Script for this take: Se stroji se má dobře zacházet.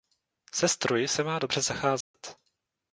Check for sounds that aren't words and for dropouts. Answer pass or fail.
fail